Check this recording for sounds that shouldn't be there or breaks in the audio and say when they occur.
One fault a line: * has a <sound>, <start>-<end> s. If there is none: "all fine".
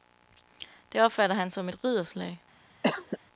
* has a cough, 2.8-3.2 s